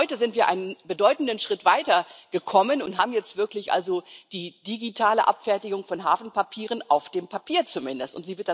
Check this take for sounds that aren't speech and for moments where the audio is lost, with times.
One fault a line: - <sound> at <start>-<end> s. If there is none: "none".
none